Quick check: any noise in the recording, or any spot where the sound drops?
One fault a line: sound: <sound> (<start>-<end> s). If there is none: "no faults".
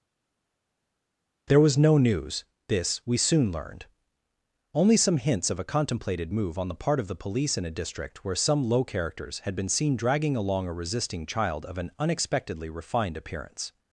no faults